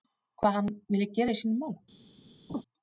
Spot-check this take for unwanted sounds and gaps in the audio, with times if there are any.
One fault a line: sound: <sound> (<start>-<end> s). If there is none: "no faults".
sound: laugh (2.5-2.6 s)